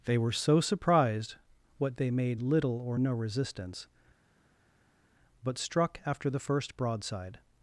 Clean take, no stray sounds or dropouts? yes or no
yes